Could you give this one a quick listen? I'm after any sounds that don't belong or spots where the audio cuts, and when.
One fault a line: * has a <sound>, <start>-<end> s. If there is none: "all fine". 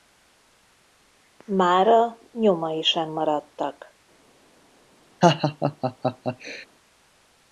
* has a laugh, 5.2-6.7 s